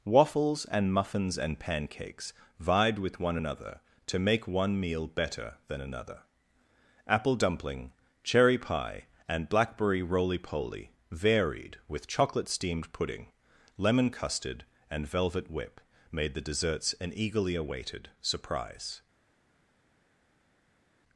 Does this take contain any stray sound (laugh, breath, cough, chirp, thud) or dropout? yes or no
no